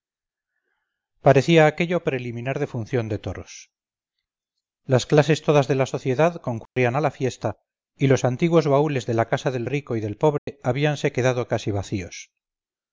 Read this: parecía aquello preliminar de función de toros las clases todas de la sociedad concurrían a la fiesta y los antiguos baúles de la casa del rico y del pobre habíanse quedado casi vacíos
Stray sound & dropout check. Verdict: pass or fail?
fail